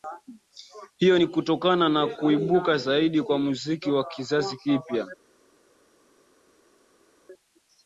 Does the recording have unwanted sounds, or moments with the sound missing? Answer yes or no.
no